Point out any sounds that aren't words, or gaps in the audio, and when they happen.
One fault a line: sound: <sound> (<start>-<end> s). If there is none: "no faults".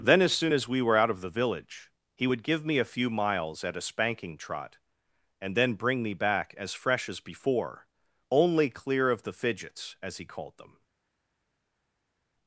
no faults